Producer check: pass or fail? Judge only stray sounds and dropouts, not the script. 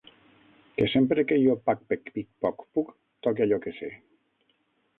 pass